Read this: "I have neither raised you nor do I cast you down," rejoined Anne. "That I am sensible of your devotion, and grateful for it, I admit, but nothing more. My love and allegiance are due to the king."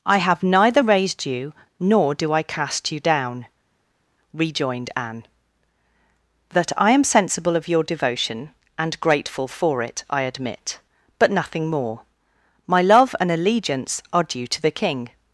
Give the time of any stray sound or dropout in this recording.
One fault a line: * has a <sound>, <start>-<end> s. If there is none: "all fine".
all fine